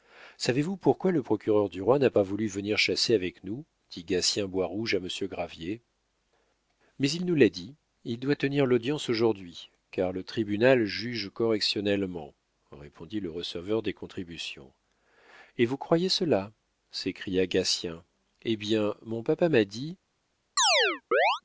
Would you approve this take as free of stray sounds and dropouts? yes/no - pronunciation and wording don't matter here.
no